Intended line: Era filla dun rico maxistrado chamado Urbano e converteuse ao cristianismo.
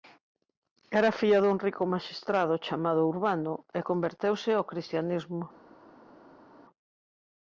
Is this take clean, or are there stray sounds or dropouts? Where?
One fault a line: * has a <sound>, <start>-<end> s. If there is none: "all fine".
all fine